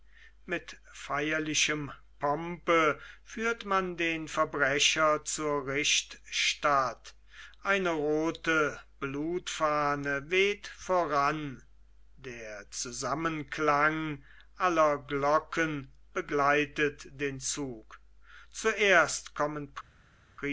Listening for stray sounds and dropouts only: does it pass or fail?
pass